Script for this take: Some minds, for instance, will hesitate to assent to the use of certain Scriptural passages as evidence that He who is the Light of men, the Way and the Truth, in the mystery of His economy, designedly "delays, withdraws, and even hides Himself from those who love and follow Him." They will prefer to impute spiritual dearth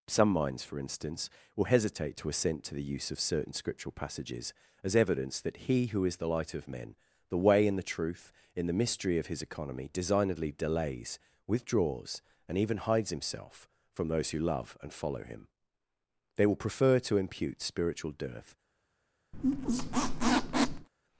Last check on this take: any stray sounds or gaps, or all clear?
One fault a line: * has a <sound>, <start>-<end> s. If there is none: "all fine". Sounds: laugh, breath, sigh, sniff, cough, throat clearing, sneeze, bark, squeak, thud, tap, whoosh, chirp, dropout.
* has a squeak, 19.3-20.9 s